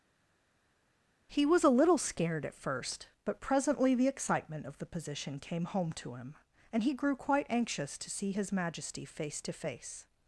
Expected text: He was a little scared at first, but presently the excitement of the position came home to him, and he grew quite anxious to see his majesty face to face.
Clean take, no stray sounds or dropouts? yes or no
yes